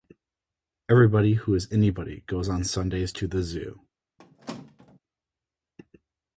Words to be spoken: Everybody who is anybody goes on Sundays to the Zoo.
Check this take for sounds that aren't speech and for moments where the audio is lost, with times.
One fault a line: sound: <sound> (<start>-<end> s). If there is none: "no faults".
sound: squeak (4.2-5.0 s)